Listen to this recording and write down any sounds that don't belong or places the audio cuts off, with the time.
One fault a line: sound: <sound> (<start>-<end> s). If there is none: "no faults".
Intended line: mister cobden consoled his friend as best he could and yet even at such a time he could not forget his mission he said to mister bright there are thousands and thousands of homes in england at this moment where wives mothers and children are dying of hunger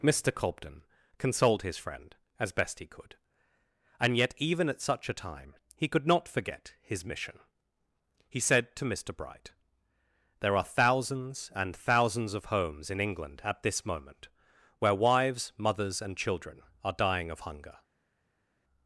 no faults